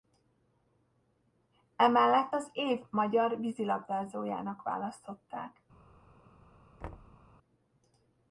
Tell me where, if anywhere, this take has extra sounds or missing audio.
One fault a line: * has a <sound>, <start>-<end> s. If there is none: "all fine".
* has a thud, 6.8-7.2 s